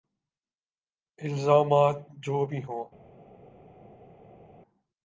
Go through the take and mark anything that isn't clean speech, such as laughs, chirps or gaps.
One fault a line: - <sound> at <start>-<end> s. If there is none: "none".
none